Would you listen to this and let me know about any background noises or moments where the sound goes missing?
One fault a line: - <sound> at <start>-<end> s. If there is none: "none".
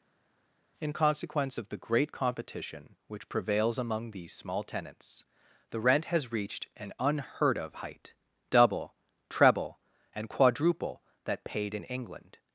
none